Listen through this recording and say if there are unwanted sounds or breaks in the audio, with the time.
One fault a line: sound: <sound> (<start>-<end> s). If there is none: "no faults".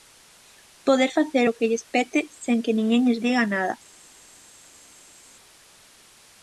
no faults